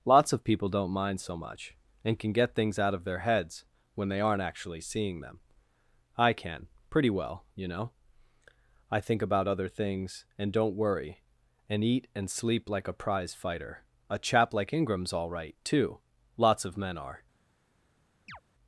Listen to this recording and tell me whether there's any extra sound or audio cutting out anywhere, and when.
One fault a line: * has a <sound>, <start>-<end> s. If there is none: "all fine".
* has a chirp, 18.3-18.4 s